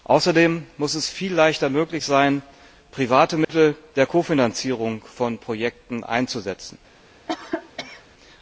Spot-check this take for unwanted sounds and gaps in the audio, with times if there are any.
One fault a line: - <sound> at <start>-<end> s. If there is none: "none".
- dropout at 3.4-3.5 s
- cough at 7.3-8.0 s